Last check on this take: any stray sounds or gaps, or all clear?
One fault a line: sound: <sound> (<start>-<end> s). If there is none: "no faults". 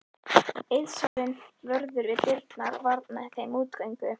sound: dropout (1.1-1.2 s)